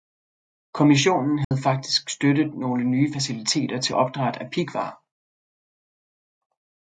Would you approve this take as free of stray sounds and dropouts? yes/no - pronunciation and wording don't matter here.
no